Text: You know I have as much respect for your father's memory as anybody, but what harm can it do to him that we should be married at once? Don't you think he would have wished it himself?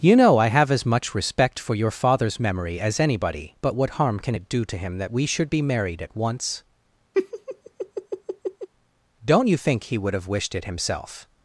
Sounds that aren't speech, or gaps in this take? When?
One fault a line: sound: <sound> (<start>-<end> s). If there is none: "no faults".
sound: laugh (7.1-8.7 s)